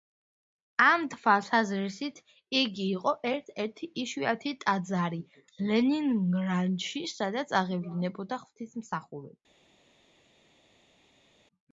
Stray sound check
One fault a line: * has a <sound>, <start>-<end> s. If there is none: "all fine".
all fine